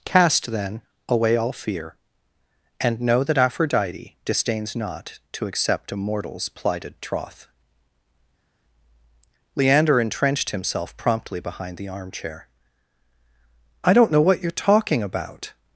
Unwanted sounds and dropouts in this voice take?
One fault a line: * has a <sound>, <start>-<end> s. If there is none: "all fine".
all fine